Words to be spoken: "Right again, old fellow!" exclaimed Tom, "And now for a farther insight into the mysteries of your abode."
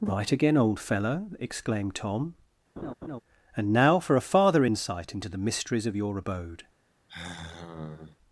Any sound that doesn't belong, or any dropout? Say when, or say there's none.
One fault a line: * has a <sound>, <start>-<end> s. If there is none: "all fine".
* has a laugh, 2.8-3.2 s
* has a sigh, 7.1-8.2 s